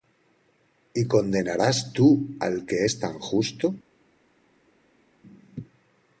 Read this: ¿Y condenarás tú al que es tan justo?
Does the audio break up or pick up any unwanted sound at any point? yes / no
no